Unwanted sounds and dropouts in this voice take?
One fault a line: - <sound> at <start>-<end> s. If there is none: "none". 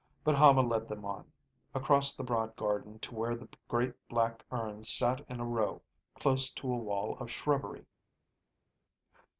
none